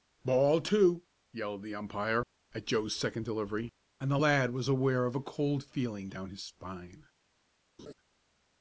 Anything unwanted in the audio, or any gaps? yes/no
yes